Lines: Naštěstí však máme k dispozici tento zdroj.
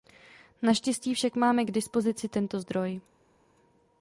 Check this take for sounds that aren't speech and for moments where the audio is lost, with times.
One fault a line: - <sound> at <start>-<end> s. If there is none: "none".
none